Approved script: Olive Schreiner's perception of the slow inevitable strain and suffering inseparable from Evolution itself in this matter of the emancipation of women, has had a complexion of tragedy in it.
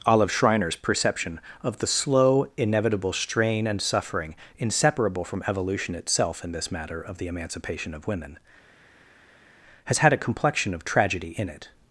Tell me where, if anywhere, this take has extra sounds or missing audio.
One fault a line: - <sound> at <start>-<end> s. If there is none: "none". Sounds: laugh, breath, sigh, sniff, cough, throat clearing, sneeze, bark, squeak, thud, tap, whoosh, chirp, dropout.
none